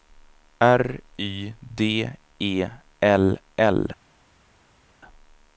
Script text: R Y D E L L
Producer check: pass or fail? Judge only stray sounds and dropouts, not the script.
pass